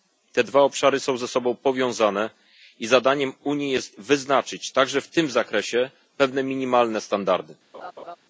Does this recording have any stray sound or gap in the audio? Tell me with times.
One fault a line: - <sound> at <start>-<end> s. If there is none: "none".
- laugh at 7.7-8.2 s